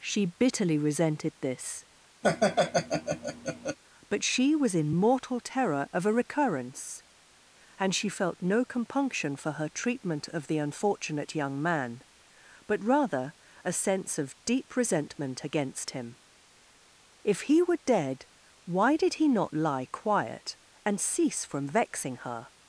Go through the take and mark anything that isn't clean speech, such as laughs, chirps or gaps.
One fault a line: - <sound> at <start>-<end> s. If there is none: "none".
- laugh at 2.2-3.8 s